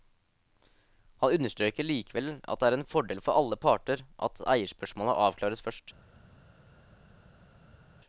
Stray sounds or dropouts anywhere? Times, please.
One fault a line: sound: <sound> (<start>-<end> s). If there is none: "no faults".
no faults